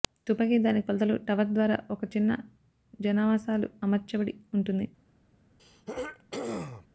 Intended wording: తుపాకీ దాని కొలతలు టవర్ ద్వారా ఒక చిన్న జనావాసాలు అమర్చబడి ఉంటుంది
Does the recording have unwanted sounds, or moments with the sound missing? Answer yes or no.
yes